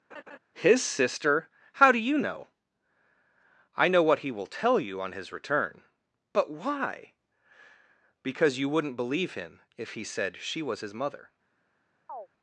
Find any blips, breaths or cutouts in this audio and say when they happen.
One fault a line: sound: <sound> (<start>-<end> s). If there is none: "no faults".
sound: laugh (0.1-0.4 s)
sound: chirp (12.1-12.3 s)